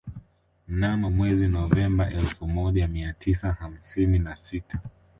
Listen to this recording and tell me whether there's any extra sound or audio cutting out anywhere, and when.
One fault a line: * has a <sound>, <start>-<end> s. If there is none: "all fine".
all fine